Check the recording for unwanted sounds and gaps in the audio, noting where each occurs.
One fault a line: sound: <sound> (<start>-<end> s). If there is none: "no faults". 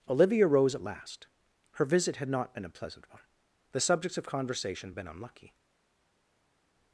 no faults